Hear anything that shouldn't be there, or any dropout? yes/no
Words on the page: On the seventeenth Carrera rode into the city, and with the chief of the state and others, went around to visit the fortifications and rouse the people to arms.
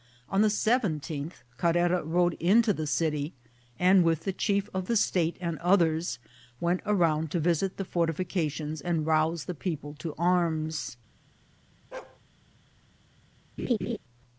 yes